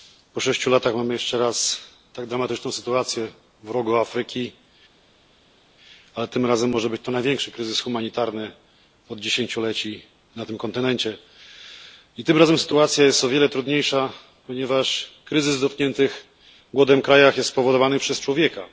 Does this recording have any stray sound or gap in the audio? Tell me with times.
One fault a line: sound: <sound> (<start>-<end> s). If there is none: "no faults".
no faults